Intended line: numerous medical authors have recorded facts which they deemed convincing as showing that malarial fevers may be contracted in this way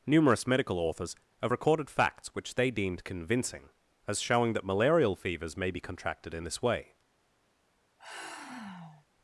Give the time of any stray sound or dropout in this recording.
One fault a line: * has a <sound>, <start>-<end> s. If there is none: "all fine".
* has a sigh, 8.0-9.1 s